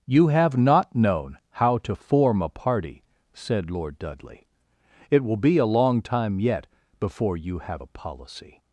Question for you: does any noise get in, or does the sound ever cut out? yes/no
no